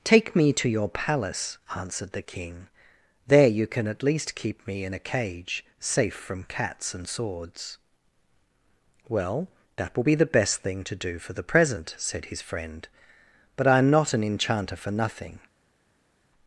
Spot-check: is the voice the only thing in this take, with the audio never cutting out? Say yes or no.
yes